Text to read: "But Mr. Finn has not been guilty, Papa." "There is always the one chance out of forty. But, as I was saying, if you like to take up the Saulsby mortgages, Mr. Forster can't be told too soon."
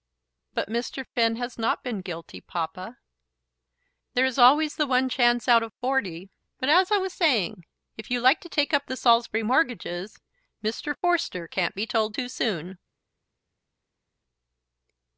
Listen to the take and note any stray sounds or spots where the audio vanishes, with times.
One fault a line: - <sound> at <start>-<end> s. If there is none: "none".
none